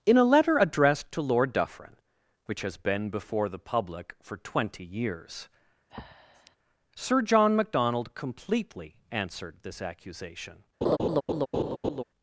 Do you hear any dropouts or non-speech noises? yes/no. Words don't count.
yes